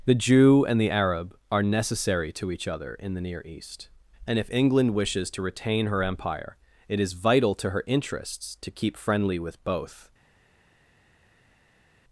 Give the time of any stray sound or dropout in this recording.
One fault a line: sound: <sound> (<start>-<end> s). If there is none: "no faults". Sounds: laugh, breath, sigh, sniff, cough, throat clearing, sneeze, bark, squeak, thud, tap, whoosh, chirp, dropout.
no faults